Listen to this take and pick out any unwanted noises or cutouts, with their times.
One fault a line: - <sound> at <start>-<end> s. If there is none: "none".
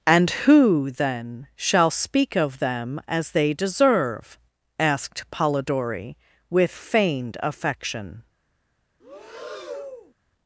- breath at 9.0-10.1 s